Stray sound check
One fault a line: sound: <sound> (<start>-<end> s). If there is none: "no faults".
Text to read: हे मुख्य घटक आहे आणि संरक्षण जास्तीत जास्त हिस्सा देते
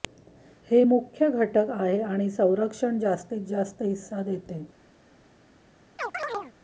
sound: chirp (6.0-6.5 s)